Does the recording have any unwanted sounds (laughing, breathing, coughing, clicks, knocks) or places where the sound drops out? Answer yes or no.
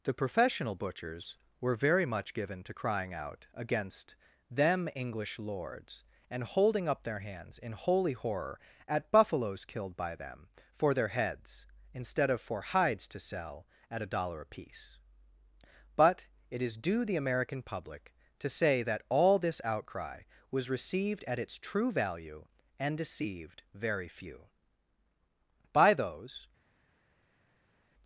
no